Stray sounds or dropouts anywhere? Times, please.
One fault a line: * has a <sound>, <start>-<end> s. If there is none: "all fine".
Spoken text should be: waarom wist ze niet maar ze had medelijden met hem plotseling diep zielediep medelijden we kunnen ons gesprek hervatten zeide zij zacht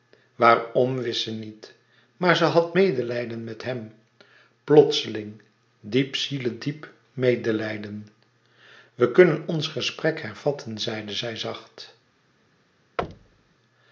* has a thud, 13.0-13.6 s